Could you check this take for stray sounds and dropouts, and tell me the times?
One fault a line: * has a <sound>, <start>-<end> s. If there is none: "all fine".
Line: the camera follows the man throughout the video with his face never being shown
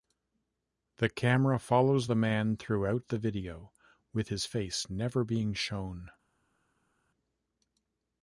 all fine